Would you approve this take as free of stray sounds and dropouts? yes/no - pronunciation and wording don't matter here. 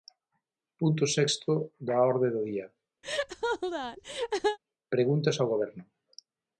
no